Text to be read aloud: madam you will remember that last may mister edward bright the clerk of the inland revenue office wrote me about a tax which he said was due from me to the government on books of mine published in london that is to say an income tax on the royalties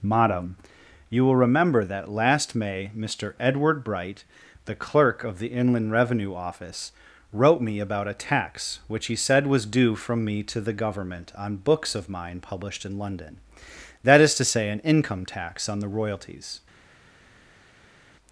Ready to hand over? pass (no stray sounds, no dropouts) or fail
pass